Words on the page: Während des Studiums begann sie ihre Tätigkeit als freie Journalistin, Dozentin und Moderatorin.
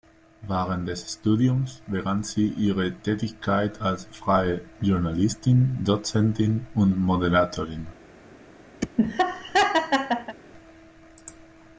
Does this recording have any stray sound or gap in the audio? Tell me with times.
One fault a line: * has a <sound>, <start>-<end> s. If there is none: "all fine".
* has a laugh, 8.8-10.4 s